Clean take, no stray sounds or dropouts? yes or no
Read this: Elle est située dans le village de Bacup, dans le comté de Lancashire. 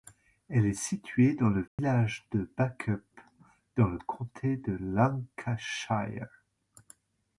no